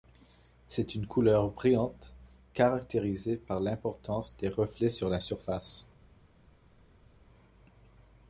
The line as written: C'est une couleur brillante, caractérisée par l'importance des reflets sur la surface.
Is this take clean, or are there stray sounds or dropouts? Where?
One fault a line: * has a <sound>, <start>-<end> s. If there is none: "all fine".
all fine